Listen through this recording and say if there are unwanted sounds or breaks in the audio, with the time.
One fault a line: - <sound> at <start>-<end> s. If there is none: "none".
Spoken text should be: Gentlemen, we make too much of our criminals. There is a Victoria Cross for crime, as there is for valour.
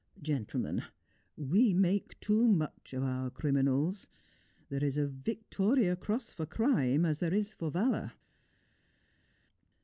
none